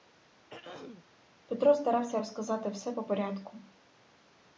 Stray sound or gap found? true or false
true